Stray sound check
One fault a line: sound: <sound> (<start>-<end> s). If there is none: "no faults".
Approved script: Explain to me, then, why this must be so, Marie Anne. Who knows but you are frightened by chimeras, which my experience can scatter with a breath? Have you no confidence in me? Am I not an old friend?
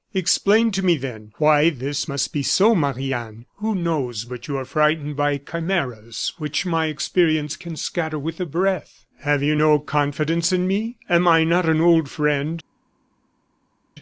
no faults